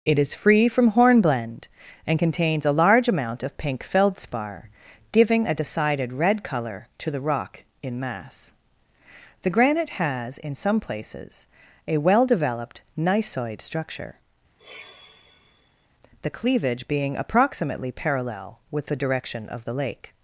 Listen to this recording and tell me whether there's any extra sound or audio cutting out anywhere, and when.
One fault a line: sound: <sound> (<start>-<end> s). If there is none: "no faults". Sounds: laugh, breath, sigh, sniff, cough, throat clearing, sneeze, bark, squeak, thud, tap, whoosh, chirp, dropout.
sound: sigh (14.6-15.9 s)